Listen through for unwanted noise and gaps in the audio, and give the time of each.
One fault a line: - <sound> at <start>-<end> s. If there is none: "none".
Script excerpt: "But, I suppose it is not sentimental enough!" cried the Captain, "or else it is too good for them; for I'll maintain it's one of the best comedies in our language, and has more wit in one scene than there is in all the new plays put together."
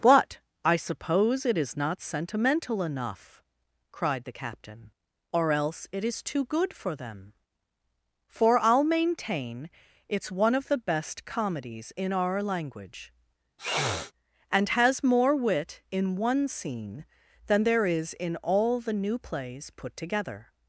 - sniff at 13.6-14.1 s